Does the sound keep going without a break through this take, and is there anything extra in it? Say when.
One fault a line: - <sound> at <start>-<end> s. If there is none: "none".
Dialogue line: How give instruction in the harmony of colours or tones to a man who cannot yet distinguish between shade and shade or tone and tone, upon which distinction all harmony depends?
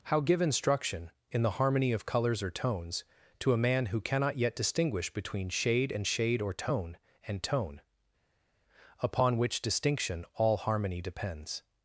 none